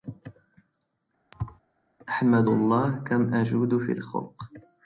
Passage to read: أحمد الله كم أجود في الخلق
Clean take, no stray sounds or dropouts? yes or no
no